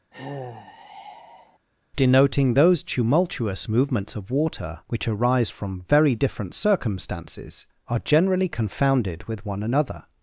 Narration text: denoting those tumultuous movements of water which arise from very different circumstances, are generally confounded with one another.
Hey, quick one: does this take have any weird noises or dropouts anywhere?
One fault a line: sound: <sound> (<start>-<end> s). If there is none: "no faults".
sound: sigh (0.1-1.6 s)